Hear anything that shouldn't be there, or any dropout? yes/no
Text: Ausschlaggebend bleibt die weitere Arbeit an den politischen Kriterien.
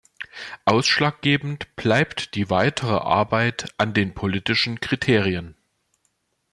no